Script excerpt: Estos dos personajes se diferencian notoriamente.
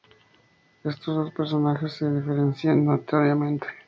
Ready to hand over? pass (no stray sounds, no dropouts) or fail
pass